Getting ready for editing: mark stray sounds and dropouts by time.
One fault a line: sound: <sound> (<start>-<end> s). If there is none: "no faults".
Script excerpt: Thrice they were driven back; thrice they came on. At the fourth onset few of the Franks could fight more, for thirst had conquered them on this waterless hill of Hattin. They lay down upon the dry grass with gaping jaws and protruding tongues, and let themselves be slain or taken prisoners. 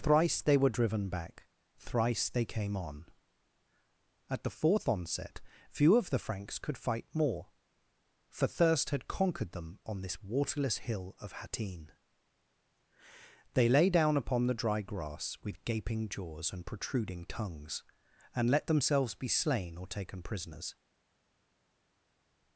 no faults